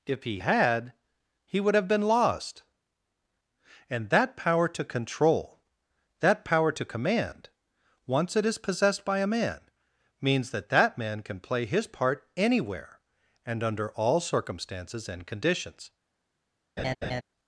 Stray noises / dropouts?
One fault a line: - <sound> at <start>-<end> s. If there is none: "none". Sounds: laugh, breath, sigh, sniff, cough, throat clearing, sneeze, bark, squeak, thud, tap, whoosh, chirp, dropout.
- laugh at 16.8-17.2 s